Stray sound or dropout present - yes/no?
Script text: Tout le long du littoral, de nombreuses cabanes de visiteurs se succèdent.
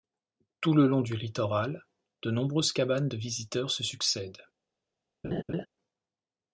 yes